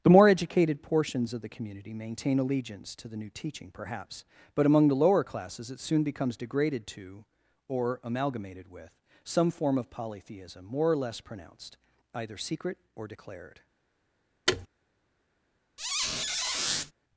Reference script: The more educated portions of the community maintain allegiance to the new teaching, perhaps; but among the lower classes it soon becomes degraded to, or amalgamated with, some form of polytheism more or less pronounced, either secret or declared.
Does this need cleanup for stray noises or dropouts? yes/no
yes